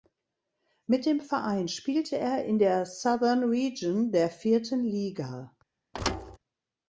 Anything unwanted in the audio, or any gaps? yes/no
yes